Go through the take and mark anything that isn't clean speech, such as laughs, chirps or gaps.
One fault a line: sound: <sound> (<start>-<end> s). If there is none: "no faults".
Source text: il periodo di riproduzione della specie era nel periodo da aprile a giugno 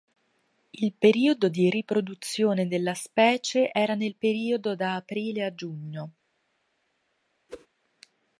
sound: whoosh (7.5-7.7 s)